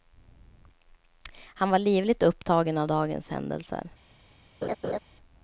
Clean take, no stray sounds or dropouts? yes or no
no